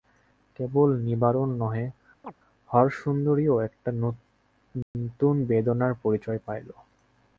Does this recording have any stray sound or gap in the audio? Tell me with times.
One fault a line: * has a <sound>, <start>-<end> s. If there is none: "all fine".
* has a chirp, 2.2-2.3 s
* has a dropout, 4.8-4.9 s